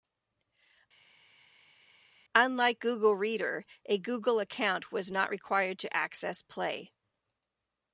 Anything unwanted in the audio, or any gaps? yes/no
no